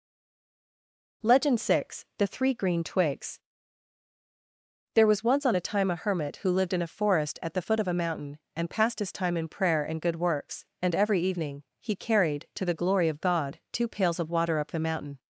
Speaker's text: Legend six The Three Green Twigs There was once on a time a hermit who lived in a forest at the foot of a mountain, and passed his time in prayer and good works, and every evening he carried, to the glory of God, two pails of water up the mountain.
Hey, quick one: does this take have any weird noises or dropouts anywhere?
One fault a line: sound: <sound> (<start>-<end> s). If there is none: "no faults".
no faults